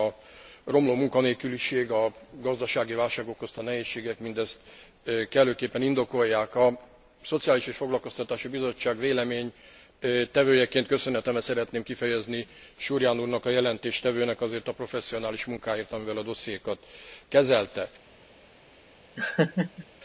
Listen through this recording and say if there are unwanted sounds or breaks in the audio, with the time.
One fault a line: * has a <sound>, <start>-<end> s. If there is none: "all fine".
* has a laugh, 19.2-19.9 s